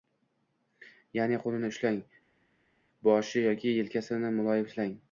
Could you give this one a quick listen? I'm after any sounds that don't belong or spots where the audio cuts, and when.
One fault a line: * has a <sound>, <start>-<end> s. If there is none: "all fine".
all fine